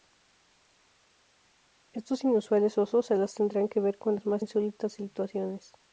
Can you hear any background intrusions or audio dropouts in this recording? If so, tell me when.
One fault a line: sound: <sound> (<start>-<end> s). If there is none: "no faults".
no faults